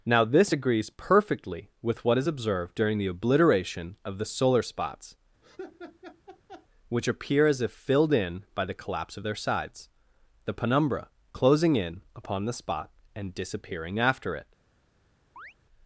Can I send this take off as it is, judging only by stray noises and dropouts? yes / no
no